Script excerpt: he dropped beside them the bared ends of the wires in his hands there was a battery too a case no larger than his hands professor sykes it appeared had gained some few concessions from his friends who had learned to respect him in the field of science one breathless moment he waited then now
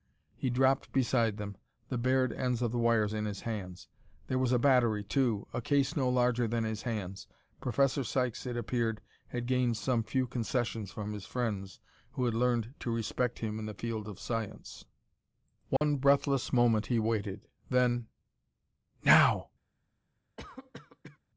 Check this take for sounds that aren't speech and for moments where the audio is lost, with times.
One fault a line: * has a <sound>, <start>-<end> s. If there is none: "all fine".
* has a dropout, 15.8-15.8 s
* has a cough, 20.4-21.2 s